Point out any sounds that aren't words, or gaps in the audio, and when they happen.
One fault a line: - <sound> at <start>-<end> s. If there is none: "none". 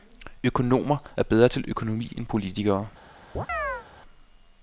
- chirp at 3.4-3.9 s